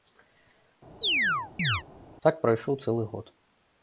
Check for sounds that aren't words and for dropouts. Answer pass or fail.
fail